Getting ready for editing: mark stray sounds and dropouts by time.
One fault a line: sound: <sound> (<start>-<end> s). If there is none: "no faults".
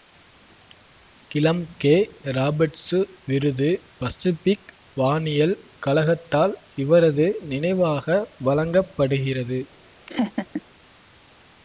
sound: laugh (10.1-10.6 s)